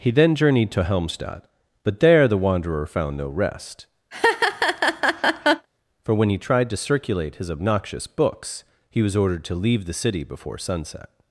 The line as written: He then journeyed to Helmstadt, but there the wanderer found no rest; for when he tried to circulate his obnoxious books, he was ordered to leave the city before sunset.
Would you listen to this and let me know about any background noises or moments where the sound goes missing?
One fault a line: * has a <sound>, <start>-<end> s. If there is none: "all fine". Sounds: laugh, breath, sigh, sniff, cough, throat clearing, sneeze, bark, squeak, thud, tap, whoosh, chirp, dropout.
* has a laugh, 4.1-5.7 s